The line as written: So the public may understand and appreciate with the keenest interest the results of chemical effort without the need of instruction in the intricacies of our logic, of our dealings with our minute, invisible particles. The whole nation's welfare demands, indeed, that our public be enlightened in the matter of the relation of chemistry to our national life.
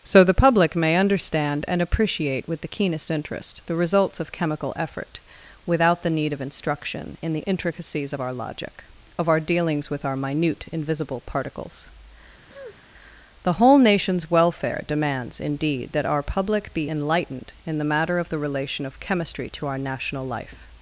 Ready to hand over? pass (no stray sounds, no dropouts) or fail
fail